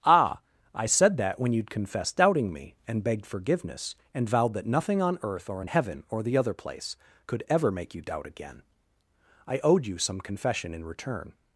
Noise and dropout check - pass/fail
pass